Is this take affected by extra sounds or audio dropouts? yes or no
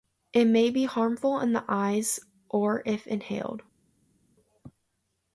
no